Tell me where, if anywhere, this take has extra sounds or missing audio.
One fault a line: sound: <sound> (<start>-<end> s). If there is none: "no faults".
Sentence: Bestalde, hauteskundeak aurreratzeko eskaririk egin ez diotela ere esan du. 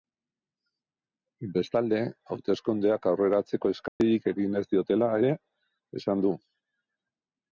sound: dropout (3.9-4.0 s)